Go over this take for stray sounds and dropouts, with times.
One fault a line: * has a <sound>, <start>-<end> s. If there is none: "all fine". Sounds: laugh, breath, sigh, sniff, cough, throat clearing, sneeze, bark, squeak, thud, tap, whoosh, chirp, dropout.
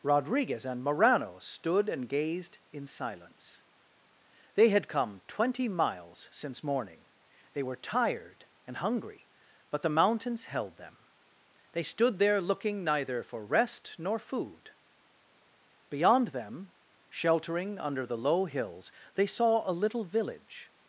all fine